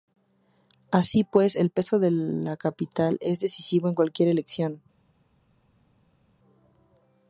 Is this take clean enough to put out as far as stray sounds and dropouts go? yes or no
yes